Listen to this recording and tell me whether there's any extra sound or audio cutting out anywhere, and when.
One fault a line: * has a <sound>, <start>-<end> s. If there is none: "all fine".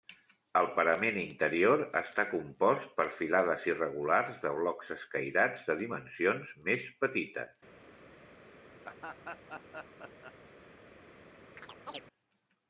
* has a laugh, 8.8-10.4 s
* has a chirp, 11.6-12.0 s